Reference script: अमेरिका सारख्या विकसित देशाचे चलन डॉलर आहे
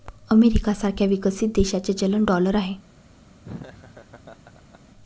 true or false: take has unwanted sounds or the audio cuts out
true